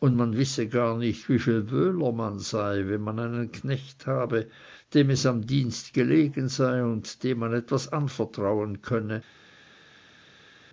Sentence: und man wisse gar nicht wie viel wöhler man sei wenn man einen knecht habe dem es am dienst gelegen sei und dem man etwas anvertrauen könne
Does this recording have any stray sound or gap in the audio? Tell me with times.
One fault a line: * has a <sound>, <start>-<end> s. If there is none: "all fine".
all fine